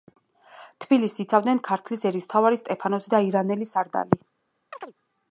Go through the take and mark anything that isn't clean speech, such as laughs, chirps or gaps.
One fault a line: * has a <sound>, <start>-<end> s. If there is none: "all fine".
* has a chirp, 4.7-4.9 s